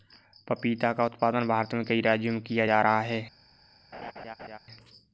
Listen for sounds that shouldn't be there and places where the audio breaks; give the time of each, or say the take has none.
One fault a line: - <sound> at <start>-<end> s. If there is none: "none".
- laugh at 3.9-4.6 s